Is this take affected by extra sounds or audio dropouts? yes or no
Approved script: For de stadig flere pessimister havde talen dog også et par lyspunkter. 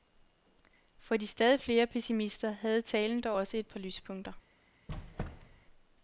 yes